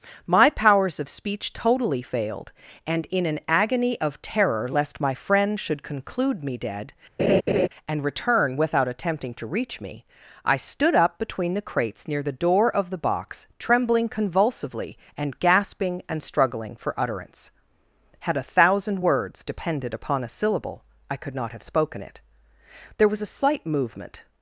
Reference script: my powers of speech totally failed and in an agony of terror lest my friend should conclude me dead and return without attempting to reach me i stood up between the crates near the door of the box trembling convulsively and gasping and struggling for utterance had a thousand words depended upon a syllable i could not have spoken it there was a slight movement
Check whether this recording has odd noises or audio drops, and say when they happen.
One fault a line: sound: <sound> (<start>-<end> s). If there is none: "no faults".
sound: laugh (7.2-7.7 s)